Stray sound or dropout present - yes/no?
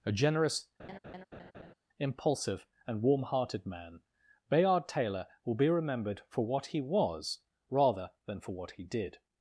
yes